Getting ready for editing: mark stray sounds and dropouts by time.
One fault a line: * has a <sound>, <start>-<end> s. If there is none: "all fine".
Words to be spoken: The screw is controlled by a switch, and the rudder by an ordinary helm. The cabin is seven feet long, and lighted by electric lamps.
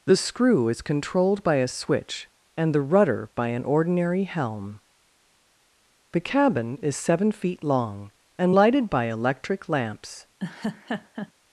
* has a laugh, 10.4-11.3 s